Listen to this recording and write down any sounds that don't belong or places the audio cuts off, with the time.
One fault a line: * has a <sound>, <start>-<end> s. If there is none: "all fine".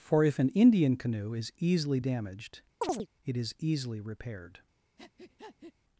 * has a chirp, 2.8-3.1 s
* has a breath, 5.0-5.7 s